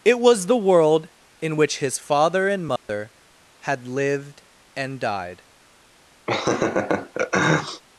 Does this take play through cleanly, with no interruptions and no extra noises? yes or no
no